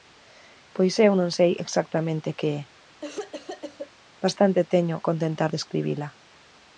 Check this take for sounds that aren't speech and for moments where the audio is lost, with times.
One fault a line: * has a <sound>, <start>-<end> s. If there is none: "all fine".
* has a cough, 3.0-3.9 s